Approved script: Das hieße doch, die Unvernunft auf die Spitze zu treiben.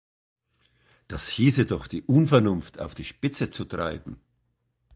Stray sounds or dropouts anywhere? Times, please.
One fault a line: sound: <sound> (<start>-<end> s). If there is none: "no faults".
no faults